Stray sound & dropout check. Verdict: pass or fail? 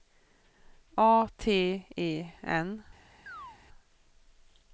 fail